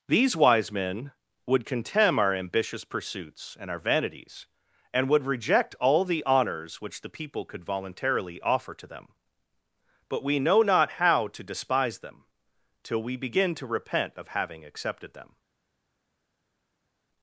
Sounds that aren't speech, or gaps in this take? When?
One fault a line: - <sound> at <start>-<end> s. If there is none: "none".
none